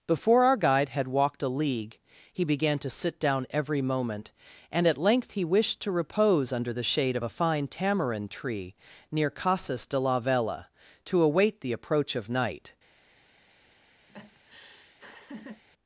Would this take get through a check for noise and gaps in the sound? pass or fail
fail